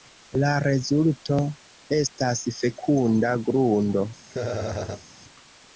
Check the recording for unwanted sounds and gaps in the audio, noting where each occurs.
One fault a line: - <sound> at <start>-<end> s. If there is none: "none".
- laugh at 4.3-5.0 s